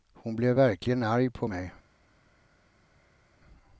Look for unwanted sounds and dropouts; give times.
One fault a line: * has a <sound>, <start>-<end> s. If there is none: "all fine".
all fine